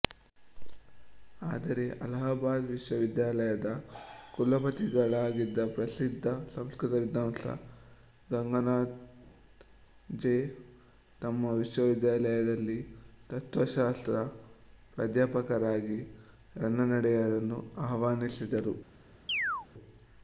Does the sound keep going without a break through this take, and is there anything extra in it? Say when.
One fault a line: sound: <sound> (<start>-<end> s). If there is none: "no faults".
sound: chirp (19.3-19.7 s)